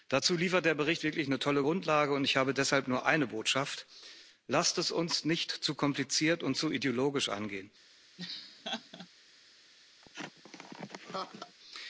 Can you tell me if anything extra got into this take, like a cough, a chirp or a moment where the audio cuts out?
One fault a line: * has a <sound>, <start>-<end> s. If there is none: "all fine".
* has a laugh, 8.2-9.1 s
* has a laugh, 10.0-11.6 s